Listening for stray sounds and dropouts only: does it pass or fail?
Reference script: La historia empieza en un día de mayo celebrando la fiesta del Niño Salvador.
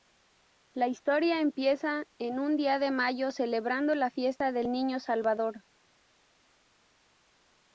pass